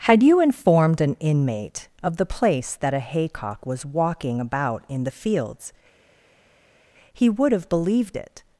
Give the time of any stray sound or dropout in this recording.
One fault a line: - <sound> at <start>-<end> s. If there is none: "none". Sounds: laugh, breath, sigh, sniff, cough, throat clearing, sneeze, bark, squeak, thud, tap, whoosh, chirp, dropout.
none